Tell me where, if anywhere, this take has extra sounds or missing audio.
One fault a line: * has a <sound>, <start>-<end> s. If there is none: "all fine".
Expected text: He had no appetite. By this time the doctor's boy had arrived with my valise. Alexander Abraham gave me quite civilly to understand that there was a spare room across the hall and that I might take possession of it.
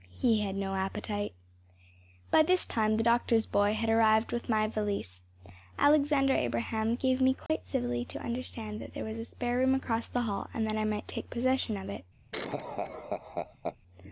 * has a dropout, 7.5-7.5 s
* has a laugh, 12.3-13.8 s